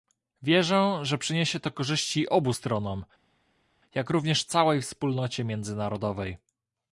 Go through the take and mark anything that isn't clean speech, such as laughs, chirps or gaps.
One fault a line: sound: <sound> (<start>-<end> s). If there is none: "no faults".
no faults